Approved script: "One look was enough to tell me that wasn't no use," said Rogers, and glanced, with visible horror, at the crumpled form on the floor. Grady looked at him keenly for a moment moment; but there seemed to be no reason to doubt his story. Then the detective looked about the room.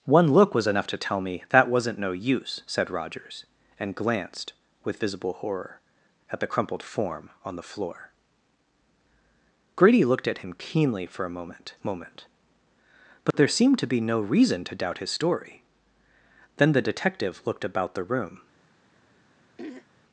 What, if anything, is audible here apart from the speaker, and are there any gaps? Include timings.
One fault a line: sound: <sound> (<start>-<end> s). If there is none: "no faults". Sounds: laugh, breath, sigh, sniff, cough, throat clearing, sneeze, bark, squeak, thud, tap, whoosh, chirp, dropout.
sound: dropout (13.3-13.3 s)
sound: throat clearing (19.6-19.9 s)